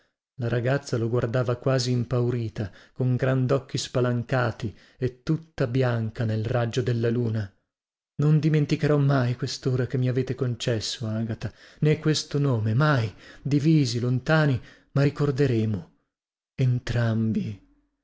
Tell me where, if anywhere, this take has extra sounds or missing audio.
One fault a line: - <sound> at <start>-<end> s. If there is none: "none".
none